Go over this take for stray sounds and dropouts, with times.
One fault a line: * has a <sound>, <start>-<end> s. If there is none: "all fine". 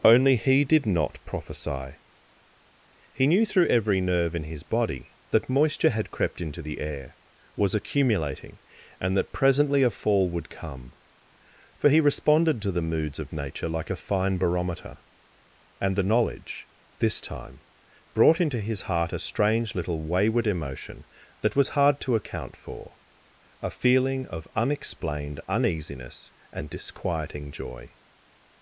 all fine